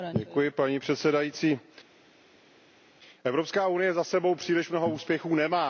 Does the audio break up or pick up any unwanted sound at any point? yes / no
no